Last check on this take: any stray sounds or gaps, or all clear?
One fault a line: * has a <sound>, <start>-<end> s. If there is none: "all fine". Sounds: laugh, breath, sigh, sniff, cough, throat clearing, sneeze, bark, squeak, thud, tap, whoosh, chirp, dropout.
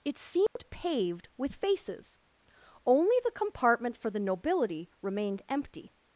* has a dropout, 0.5-0.6 s